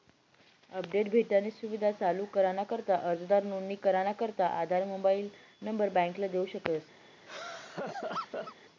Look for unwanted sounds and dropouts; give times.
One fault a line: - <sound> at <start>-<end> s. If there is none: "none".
- laugh at 7.3-8.6 s